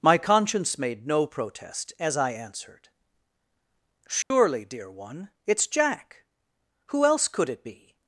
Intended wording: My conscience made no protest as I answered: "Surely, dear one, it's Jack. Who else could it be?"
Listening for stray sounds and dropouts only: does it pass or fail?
fail